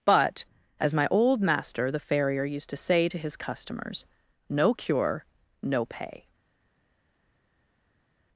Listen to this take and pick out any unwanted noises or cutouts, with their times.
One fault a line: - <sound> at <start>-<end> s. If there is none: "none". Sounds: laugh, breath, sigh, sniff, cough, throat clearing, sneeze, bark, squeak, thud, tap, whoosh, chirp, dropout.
none